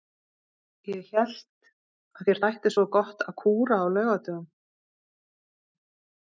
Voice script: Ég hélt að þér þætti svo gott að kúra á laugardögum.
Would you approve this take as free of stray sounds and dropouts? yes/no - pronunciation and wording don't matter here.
yes